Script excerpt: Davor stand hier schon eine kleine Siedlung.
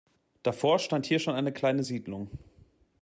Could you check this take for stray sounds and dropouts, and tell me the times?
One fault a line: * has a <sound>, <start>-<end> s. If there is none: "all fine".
all fine